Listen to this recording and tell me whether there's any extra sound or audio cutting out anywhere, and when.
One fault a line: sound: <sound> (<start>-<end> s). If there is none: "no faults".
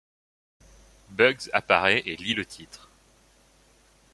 no faults